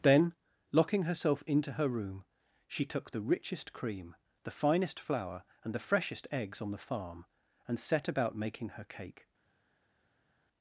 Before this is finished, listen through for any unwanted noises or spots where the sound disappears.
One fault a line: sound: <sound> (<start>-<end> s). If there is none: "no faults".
no faults